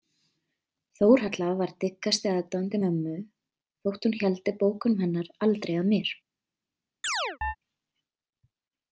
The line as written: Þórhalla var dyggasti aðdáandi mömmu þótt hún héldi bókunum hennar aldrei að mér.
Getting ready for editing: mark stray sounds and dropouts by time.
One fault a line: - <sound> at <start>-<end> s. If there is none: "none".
- chirp at 7.0-7.6 s